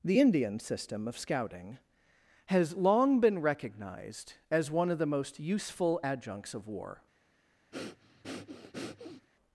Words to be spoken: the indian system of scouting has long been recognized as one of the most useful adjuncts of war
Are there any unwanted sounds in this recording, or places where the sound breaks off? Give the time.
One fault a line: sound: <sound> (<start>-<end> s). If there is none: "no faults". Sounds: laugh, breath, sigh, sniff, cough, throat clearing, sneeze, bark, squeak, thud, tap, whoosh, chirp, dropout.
sound: breath (7.7-9.3 s)